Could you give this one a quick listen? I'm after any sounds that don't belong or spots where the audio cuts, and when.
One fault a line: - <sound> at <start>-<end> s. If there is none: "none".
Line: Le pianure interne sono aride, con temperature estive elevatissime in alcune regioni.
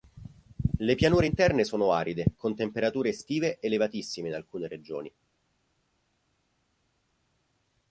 none